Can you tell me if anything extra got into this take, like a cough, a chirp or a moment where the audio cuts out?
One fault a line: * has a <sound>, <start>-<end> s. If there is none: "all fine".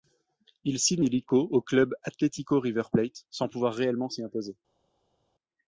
all fine